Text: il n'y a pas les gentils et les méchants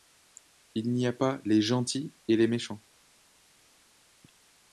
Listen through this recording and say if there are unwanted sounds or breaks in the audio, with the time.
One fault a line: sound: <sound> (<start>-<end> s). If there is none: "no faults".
no faults